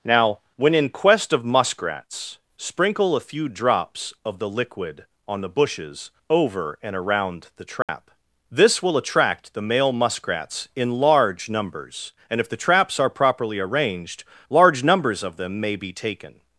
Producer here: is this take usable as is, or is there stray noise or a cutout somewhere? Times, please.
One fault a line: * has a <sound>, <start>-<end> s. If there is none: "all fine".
* has a dropout, 7.8-7.9 s